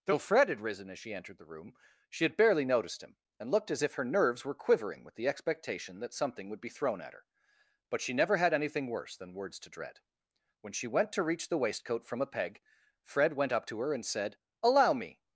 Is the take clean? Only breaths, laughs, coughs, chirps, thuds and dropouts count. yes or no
yes